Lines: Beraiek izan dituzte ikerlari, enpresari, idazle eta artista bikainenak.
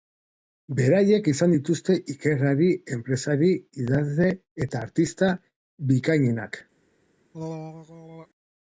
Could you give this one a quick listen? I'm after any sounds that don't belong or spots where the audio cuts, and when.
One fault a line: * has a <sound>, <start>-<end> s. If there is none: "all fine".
* has a throat clearing, 7.3-8.3 s